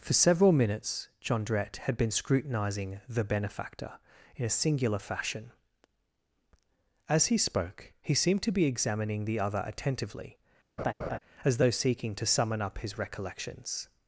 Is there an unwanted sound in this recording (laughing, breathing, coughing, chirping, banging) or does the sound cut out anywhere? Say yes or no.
yes